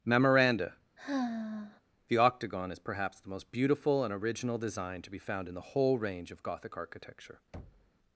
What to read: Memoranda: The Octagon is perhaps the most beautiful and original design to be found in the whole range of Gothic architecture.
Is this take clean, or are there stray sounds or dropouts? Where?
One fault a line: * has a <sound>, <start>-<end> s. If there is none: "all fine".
* has a sigh, 1.0-1.8 s
* has a thud, 7.5-7.9 s